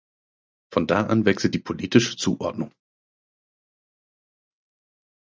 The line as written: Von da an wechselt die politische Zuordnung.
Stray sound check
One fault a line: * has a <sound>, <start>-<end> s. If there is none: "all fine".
all fine